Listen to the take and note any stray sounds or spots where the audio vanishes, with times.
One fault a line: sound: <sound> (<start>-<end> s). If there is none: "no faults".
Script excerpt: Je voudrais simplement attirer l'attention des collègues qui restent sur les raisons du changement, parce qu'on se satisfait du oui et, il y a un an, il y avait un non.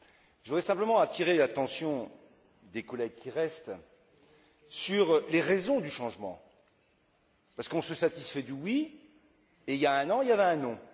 no faults